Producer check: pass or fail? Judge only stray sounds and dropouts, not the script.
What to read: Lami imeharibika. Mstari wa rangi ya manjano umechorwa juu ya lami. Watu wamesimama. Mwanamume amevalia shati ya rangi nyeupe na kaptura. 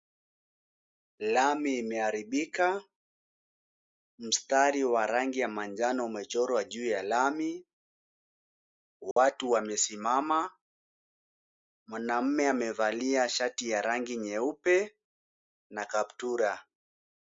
fail